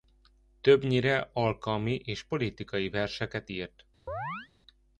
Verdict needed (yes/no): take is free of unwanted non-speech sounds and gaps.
no